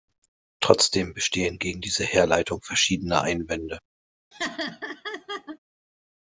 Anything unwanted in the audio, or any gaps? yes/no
yes